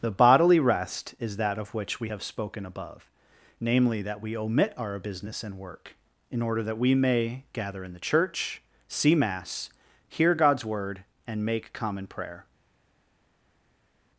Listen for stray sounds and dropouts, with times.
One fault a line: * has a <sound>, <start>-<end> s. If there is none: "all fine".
all fine